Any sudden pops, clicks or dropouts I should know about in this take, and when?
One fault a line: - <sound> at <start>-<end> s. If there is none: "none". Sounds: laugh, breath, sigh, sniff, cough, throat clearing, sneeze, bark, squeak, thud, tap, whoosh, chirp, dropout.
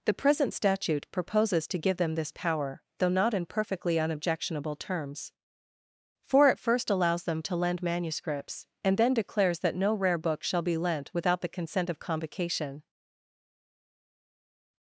none